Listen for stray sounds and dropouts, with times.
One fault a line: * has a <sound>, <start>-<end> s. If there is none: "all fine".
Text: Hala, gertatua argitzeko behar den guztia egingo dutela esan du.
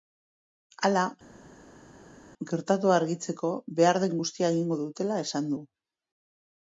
all fine